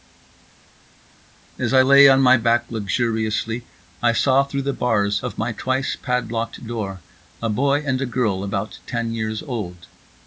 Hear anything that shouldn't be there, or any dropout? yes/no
no